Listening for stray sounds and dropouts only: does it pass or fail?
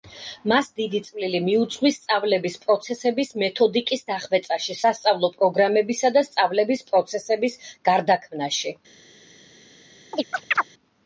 fail